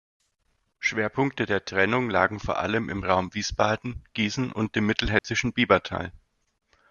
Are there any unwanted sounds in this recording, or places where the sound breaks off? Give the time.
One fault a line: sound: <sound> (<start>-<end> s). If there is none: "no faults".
sound: dropout (5.2-5.2 s)